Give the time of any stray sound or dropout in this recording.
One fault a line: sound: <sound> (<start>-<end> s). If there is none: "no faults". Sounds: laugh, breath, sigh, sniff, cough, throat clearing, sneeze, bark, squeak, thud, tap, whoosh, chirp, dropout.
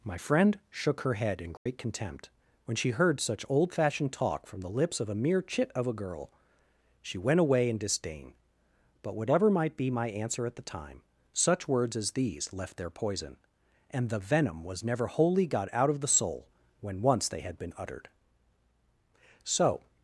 sound: dropout (1.6-1.7 s)